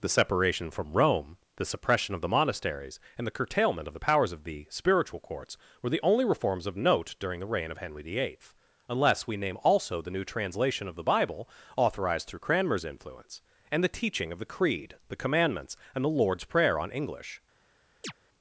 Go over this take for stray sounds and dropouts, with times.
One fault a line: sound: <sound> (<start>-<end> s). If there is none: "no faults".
sound: chirp (18.0-18.1 s)